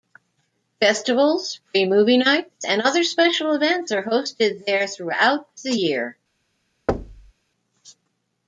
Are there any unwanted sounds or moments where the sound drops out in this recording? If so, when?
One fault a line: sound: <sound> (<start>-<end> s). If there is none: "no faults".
sound: thud (6.9-7.3 s)